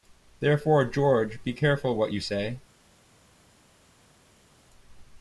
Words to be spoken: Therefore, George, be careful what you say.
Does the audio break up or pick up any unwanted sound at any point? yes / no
no